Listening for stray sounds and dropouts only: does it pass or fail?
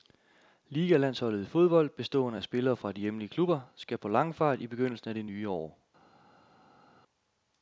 pass